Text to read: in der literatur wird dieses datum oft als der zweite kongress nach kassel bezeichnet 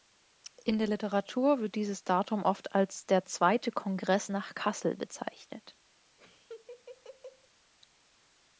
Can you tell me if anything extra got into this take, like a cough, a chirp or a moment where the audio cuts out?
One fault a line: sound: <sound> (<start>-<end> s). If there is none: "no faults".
sound: laugh (6.2-7.5 s)